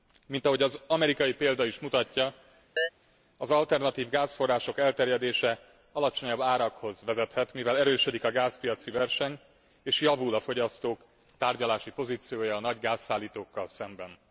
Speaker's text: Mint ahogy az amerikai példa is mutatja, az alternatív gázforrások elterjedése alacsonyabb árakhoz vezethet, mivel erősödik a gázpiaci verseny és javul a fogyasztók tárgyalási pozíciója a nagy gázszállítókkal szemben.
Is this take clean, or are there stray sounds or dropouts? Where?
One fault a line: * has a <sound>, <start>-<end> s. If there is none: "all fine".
* has a chirp, 2.8-2.9 s